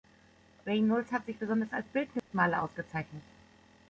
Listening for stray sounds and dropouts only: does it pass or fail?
fail